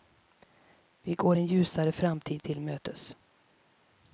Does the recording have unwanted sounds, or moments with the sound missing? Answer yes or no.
no